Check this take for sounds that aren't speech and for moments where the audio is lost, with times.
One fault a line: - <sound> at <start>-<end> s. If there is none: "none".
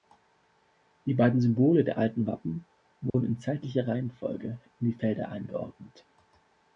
- dropout at 3.1-3.1 s